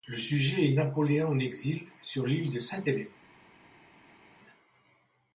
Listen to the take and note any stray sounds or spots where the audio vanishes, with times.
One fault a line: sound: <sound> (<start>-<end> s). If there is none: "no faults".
no faults